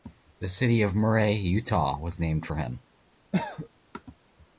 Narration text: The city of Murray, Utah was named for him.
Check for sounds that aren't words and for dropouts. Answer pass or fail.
fail